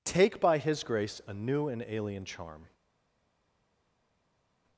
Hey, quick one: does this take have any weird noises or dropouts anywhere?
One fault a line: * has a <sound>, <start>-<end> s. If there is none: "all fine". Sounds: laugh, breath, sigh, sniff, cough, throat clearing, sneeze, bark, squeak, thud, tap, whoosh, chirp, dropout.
all fine